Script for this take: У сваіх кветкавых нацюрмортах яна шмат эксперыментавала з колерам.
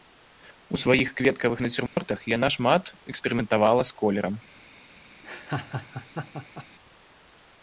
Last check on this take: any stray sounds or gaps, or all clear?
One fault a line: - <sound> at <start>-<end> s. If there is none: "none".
- dropout at 1.9-2.0 s
- laugh at 5.2-6.7 s